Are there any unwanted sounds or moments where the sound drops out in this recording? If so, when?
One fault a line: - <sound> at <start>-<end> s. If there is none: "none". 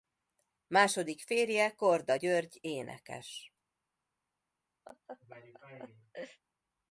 - laugh at 4.9-6.4 s